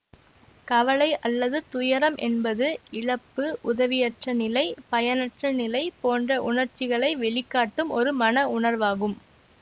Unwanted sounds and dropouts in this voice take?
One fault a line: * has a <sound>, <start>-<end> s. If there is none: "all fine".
all fine